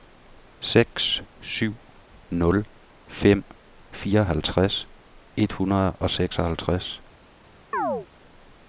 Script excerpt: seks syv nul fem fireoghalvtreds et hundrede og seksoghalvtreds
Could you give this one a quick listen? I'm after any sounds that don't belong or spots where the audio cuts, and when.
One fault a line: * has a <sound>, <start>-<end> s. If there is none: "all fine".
* has a chirp, 7.7-8.1 s